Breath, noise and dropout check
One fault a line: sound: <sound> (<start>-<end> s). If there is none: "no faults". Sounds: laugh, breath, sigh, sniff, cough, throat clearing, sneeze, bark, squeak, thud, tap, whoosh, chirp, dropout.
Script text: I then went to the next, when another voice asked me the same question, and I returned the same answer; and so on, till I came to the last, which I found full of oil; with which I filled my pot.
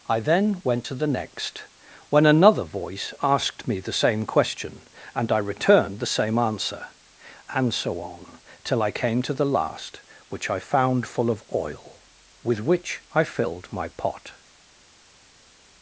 no faults